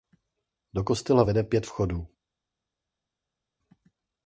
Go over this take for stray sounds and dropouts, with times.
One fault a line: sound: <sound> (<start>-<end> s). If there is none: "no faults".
no faults